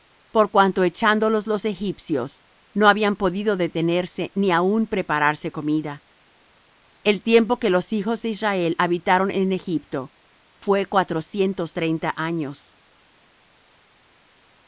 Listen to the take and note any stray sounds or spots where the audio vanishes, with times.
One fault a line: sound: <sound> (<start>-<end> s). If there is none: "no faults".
no faults